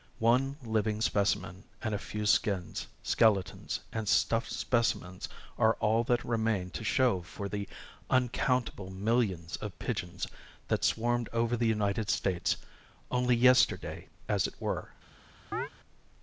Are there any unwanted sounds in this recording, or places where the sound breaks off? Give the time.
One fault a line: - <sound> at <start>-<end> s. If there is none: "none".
- chirp at 15.5-15.7 s